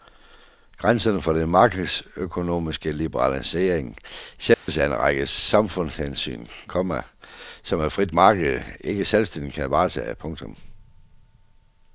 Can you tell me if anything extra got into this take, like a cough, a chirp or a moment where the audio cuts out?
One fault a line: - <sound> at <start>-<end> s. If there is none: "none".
- dropout at 4.5-4.7 s